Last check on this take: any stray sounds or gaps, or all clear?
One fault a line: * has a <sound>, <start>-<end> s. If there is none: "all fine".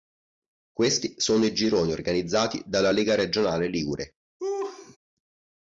* has a laugh, 4.4-5.0 s